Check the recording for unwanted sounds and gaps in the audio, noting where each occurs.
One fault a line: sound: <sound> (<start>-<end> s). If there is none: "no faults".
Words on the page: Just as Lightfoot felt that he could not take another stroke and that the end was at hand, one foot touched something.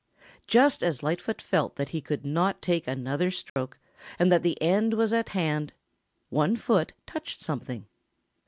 sound: dropout (3.5-3.6 s)